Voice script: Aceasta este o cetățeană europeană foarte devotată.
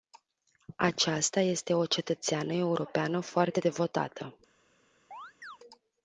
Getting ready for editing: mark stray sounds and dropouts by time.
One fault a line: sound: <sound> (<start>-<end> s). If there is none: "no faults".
sound: chirp (5.1-5.6 s)